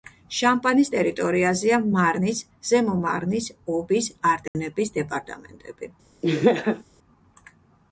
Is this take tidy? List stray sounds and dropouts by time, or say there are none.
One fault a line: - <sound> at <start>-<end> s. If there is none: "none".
- dropout at 4.5-4.5 s
- laugh at 6.2-6.8 s